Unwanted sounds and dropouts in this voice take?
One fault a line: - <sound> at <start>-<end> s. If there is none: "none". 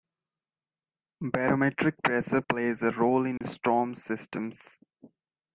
- dropout at 3.4-3.4 s